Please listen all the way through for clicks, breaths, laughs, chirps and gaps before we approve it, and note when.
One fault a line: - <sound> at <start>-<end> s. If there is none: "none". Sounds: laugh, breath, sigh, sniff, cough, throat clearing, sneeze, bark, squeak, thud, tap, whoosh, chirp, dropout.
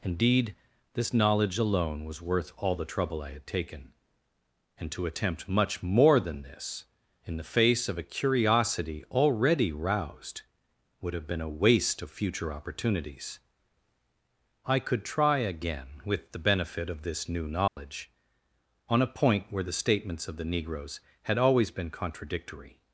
- dropout at 17.7-17.8 s